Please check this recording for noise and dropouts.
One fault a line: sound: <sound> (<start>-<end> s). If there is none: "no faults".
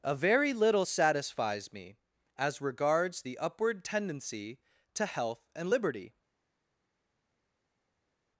no faults